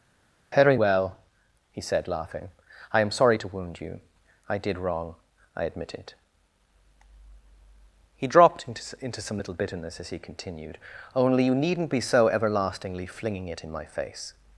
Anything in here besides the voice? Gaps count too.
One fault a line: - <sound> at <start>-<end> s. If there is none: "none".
none